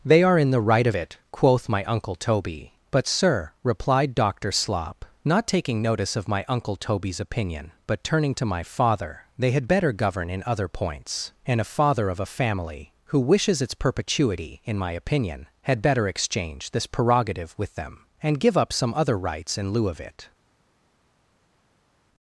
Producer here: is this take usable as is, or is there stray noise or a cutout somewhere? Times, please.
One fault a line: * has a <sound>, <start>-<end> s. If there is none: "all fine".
all fine